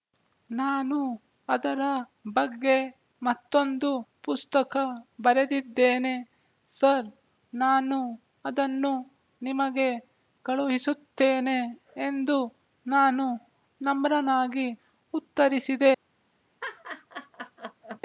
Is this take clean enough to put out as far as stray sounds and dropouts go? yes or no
no